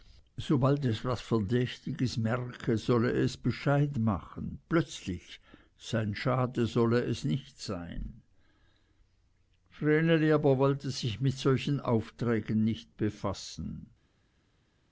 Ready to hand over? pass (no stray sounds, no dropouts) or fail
pass